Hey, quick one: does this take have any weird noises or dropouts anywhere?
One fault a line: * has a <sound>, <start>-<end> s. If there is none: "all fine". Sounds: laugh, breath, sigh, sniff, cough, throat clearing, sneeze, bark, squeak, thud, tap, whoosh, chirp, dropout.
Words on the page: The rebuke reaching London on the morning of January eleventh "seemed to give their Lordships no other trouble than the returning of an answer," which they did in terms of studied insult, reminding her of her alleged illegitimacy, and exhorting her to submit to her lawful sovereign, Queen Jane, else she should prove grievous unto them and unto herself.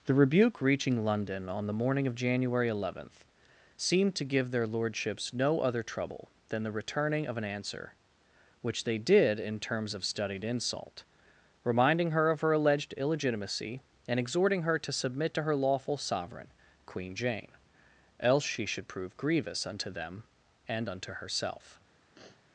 * has a sniff, 22.1-22.5 s